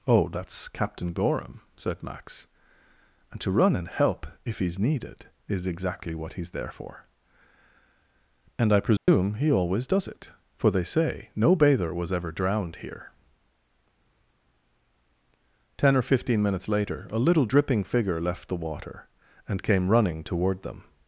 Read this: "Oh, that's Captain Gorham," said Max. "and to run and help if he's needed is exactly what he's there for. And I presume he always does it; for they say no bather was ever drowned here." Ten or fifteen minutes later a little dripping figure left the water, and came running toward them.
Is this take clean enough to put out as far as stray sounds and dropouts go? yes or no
no